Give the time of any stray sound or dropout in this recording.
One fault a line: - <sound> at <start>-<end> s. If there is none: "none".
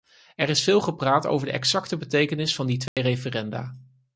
- dropout at 2.9-3.0 s